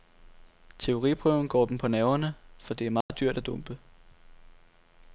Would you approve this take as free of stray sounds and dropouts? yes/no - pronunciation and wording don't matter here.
no